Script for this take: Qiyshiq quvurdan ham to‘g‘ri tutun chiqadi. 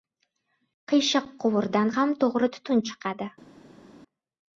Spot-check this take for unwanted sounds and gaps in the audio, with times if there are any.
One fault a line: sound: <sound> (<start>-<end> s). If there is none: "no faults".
no faults